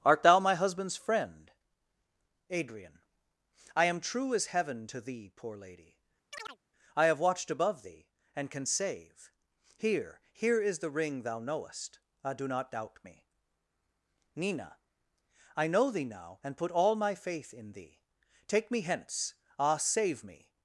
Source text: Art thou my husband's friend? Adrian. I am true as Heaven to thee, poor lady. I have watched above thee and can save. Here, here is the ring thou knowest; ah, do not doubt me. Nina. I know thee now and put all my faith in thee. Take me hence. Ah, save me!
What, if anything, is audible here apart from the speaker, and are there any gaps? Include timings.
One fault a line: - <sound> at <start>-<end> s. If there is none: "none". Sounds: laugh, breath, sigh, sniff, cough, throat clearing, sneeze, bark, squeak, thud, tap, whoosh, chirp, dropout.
- chirp at 6.3-6.6 s